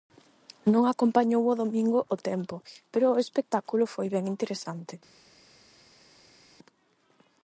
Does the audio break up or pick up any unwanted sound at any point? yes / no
no